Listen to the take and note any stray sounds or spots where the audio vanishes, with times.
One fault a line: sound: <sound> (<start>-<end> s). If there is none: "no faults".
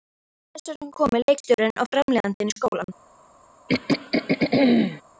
sound: throat clearing (3.7-5.0 s)